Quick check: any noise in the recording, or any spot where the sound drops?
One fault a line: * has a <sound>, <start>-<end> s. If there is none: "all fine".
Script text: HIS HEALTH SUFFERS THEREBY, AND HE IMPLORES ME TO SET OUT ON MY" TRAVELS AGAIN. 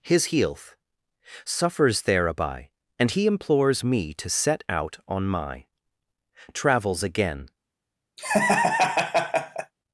* has a laugh, 8.2-9.7 s